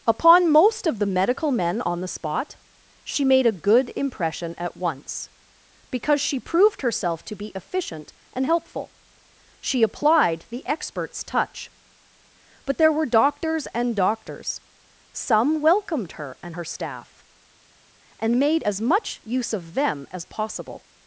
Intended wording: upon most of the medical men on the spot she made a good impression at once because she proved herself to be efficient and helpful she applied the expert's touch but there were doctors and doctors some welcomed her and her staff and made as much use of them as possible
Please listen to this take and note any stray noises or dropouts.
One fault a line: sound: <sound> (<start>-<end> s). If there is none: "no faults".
no faults